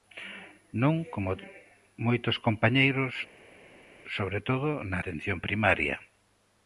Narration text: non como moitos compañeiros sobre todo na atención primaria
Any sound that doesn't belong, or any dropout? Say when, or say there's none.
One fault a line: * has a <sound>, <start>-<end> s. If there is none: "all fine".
all fine